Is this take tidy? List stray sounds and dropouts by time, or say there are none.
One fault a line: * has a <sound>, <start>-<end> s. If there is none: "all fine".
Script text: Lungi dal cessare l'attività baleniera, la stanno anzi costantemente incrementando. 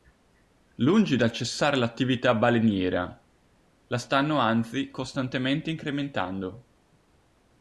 all fine